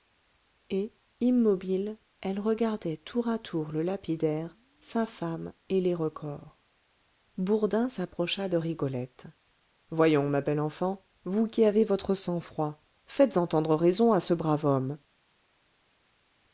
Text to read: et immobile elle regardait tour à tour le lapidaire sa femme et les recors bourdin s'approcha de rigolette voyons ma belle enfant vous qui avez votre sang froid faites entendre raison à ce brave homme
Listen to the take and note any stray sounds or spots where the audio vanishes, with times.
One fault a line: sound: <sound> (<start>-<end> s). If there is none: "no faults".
no faults